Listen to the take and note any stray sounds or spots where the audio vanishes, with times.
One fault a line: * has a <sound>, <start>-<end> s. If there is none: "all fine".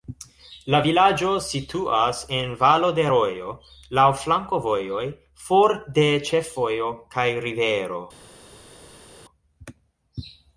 all fine